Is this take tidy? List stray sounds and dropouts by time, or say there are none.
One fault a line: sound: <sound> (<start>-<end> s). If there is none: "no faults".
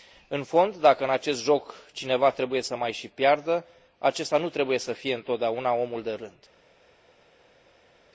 no faults